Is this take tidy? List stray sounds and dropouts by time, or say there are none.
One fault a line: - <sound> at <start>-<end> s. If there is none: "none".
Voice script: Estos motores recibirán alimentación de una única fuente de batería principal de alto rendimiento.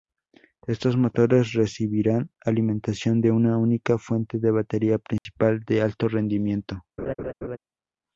- dropout at 5.2-5.3 s
- laugh at 7.0-7.6 s